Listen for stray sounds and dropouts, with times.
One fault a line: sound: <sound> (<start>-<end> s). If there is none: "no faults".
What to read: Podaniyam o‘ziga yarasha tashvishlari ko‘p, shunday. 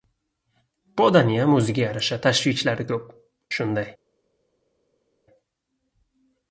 no faults